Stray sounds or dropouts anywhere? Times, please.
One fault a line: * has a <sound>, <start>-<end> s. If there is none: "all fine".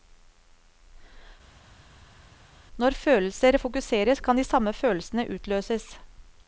all fine